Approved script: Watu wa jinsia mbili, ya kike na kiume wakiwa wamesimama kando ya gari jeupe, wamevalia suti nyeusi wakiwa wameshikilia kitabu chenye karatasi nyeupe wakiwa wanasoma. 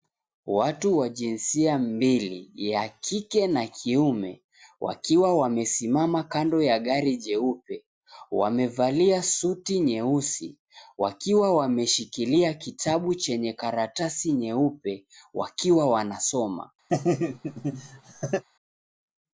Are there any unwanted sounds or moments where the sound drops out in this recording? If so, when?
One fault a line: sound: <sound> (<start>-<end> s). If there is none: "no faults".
sound: laugh (16.9-18.4 s)